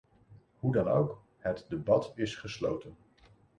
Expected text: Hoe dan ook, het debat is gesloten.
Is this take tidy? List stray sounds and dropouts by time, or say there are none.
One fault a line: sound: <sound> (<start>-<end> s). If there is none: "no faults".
no faults